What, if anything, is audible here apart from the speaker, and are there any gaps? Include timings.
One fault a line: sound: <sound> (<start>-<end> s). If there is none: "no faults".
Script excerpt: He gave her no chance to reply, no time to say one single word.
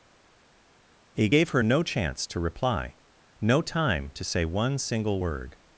no faults